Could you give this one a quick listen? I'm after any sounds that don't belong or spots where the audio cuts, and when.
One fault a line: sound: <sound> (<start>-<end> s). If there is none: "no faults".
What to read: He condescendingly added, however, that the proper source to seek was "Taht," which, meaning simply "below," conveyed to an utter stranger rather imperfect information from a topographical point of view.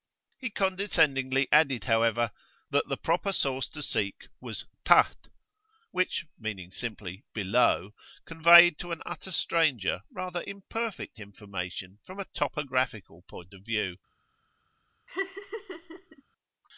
sound: laugh (15.1-16.2 s)